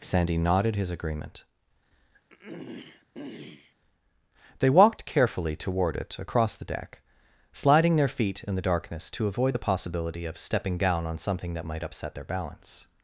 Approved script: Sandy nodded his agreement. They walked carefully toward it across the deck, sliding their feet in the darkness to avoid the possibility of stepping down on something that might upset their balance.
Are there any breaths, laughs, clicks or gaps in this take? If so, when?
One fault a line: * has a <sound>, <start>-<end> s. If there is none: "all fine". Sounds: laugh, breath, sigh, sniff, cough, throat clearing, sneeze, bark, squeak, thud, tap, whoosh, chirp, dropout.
* has a throat clearing, 2.3-3.8 s